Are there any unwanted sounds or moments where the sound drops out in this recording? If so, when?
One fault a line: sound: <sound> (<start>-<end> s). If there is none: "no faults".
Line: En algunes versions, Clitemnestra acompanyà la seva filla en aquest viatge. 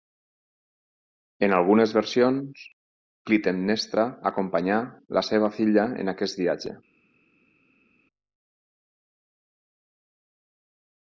no faults